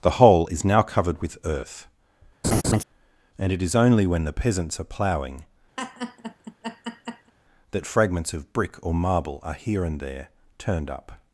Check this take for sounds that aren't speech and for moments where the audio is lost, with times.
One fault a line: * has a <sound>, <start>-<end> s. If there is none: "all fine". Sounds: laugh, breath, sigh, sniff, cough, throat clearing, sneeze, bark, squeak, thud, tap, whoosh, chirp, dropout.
* has a laugh, 2.4-2.8 s
* has a laugh, 5.8-7.3 s